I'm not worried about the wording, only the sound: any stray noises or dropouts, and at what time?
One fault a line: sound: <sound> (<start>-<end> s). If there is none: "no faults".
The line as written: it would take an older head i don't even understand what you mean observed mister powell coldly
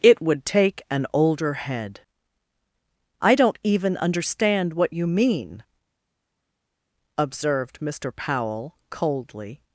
no faults